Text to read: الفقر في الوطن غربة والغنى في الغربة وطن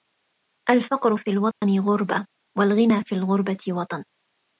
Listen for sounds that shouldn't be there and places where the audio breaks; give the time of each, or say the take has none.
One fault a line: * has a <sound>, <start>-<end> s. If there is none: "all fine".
* has a dropout, 1.5-1.6 s